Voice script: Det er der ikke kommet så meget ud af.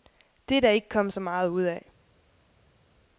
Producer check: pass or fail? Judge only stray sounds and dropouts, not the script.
pass